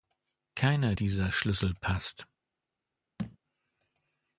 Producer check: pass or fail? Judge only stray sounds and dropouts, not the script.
fail